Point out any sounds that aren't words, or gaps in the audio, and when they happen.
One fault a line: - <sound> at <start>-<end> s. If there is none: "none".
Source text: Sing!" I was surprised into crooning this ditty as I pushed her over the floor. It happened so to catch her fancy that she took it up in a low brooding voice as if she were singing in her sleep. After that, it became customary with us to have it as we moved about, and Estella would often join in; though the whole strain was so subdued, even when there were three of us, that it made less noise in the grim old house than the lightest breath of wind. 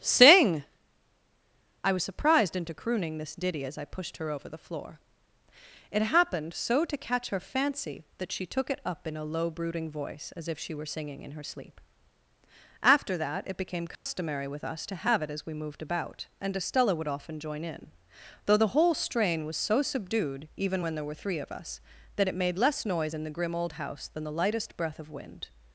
- dropout at 14.0-14.1 s